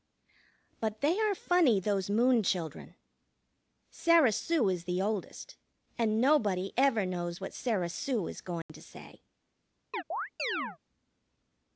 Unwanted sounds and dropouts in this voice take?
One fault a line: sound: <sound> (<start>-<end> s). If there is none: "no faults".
sound: dropout (8.6-8.7 s)
sound: chirp (9.9-10.8 s)